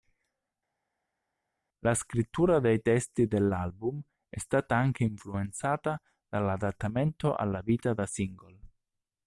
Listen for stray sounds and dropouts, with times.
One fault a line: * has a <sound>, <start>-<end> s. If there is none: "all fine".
all fine